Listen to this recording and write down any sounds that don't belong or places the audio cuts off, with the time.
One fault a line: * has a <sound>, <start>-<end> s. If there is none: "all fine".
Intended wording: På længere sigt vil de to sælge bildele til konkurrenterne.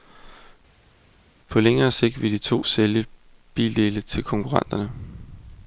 all fine